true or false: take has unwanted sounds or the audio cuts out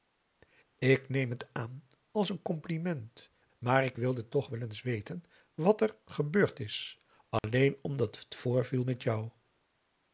true